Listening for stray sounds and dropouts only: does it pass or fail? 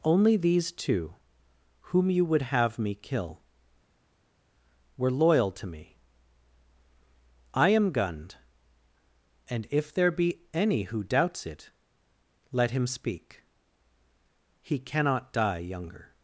pass